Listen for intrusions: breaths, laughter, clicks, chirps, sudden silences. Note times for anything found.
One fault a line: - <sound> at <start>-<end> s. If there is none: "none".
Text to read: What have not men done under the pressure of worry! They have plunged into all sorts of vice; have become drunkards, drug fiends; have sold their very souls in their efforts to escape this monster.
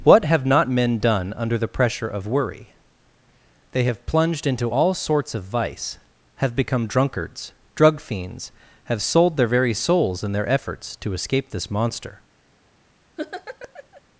- laugh at 13.2-14.0 s